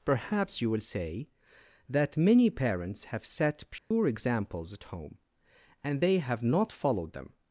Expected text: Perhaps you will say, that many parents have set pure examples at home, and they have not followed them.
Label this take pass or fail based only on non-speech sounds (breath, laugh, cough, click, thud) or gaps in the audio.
fail